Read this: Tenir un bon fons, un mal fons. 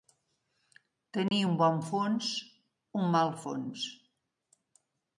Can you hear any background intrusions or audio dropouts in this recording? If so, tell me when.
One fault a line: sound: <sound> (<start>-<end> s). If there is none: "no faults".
sound: dropout (1.3-1.3 s)